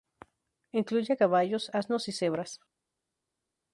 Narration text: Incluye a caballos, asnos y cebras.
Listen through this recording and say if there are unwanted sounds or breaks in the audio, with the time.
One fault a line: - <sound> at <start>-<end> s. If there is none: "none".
none